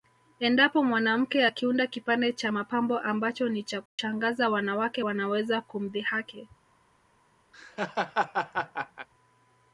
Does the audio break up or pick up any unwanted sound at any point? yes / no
yes